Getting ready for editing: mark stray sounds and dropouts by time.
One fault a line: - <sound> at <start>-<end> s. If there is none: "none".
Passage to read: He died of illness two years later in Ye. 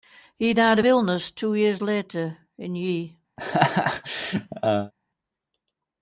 - laugh at 3.4-4.9 s